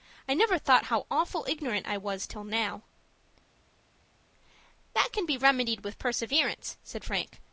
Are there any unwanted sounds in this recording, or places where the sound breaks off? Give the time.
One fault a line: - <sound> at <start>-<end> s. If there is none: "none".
none